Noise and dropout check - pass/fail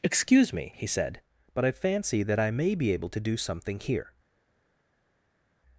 pass